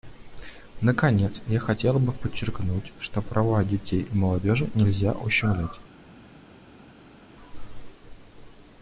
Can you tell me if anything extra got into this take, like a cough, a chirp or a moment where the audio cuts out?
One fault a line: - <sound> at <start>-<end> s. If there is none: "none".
none